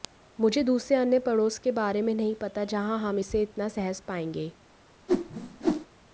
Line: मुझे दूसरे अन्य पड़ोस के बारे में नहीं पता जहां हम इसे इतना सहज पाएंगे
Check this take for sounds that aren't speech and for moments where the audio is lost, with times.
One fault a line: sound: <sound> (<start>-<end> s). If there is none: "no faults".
sound: whoosh (5.1-5.9 s)